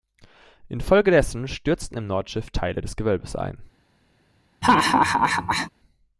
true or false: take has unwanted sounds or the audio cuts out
true